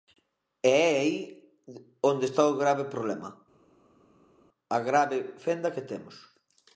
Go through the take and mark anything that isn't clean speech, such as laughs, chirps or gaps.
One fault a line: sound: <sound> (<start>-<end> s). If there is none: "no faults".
no faults